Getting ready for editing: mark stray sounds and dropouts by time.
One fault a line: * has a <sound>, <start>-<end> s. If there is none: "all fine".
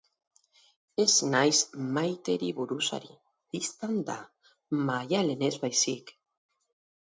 all fine